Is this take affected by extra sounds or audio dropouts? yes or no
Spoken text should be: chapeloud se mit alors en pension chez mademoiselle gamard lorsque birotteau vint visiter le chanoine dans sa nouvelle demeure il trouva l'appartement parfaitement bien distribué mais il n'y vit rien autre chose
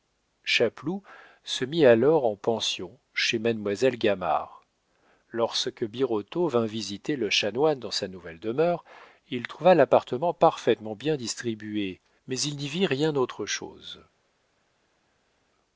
no